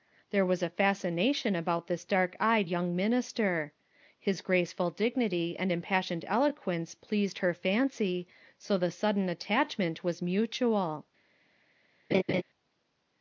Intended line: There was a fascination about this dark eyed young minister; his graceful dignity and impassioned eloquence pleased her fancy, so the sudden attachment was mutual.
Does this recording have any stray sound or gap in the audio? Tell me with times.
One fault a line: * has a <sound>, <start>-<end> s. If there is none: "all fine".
* has a laugh, 12.1-12.4 s